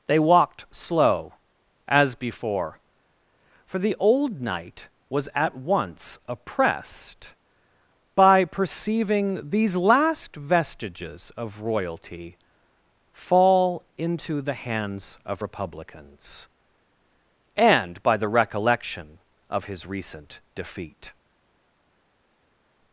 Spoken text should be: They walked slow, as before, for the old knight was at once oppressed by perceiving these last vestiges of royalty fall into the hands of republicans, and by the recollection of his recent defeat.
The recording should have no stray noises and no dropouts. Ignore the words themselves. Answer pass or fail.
pass